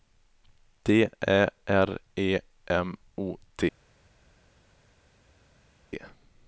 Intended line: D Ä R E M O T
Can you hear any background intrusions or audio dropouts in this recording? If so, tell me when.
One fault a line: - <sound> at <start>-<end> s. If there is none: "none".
none